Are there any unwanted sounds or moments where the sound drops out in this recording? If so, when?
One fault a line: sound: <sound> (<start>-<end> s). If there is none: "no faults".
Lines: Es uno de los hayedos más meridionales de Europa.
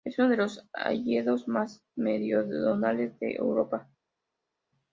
no faults